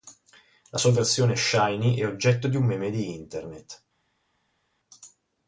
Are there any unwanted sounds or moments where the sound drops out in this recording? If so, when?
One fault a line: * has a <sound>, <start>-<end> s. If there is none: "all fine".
all fine